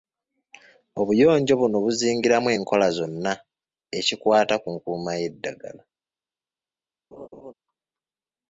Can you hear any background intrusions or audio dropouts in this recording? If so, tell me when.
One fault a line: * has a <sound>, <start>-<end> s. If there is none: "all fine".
* has a laugh, 7.1-7.5 s